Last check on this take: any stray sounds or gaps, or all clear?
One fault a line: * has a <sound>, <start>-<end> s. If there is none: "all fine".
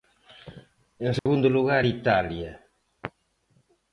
* has a dropout, 1.2-1.3 s